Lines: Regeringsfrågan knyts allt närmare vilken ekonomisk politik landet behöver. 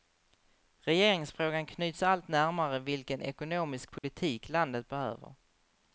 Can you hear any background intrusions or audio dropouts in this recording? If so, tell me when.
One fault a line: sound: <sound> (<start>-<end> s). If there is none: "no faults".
sound: dropout (4.0-4.0 s)